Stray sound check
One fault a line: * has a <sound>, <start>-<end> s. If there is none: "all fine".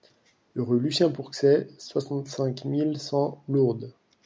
all fine